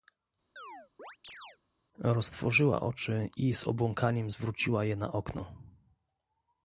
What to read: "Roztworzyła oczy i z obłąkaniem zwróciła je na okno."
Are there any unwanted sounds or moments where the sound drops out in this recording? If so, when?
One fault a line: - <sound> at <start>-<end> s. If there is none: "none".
- chirp at 0.6-1.6 s